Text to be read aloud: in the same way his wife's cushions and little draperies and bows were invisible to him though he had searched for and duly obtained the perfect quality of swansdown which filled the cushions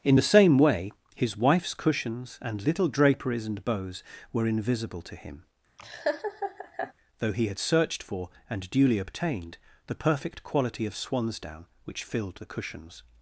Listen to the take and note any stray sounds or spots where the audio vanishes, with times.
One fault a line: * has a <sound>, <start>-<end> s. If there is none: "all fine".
* has a laugh, 5.8-6.9 s